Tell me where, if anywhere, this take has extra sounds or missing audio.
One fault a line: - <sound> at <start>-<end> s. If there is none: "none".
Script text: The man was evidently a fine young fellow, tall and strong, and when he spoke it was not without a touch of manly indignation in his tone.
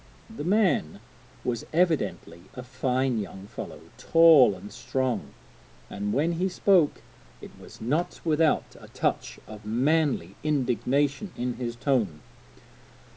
none